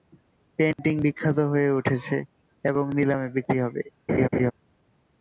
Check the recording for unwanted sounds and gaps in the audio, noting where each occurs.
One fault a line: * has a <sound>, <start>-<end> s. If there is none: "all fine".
* has a dropout, 0.7-0.8 s
* has a laugh, 4.1-4.5 s